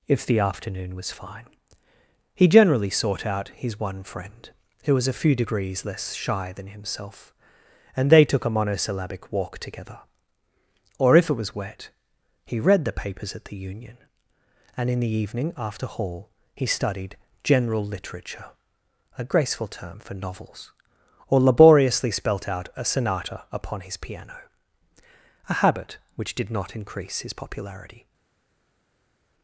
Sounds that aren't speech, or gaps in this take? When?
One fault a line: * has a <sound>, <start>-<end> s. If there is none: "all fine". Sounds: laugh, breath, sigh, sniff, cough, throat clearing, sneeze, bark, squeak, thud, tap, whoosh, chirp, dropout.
all fine